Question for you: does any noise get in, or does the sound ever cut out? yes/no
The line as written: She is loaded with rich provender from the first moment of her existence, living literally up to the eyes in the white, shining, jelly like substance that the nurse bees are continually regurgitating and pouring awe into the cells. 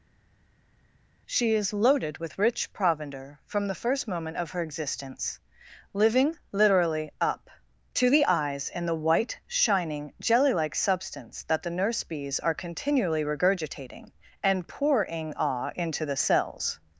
no